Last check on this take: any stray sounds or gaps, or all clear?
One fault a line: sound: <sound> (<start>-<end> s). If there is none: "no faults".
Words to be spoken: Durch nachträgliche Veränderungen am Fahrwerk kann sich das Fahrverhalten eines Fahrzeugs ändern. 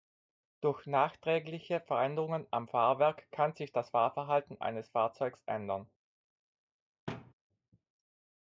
sound: thud (7.1-7.3 s)